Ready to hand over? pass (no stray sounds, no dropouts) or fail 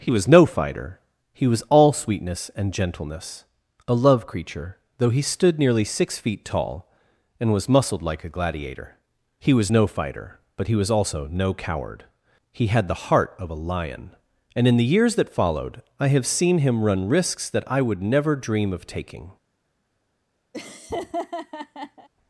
fail